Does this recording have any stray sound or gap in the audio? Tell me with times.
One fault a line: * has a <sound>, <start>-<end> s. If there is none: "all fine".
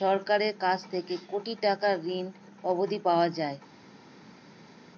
all fine